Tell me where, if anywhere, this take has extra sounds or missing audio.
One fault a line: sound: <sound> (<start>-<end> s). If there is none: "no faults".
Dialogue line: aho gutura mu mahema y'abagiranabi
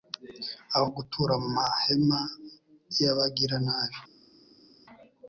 no faults